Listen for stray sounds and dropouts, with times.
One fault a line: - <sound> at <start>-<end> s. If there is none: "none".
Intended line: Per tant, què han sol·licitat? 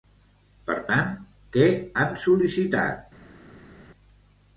none